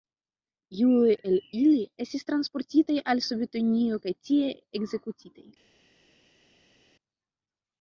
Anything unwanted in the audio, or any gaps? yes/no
no